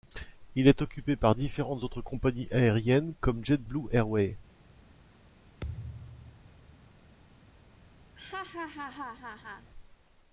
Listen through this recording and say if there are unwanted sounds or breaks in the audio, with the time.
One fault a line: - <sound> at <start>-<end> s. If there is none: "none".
- thud at 5.6-6.9 s
- laugh at 8.2-9.7 s